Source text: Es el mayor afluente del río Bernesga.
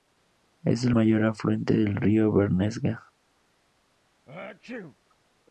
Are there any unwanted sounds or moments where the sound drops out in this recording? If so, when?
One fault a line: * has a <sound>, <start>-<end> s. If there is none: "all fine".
* has a sneeze, 4.3-5.0 s